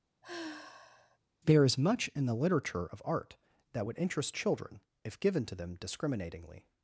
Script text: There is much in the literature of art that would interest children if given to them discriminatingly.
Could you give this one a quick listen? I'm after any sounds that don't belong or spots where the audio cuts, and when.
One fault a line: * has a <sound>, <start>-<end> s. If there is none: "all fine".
* has a sigh, 0.2-1.2 s